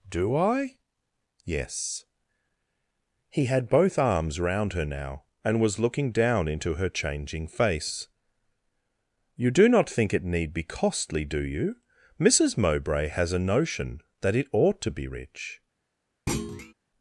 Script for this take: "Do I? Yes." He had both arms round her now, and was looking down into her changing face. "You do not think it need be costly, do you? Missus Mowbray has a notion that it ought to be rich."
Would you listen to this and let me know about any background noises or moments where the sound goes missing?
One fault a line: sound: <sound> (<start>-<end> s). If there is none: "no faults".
sound: thud (16.3-16.7 s)